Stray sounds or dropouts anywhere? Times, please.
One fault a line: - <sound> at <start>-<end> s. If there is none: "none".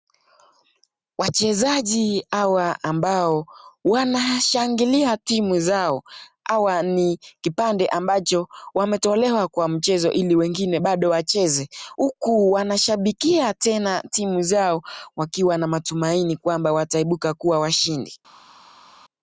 none